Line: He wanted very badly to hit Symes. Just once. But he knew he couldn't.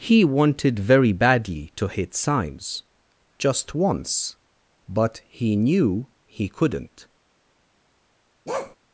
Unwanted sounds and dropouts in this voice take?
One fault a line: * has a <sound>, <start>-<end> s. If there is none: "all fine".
* has a bark, 8.5-8.8 s